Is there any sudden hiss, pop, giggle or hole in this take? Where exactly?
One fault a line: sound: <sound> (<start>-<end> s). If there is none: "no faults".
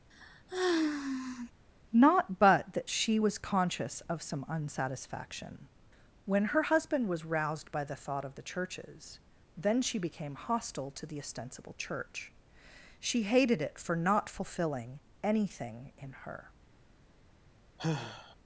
sound: sigh (0.1-1.5 s)
sound: sigh (17.8-18.4 s)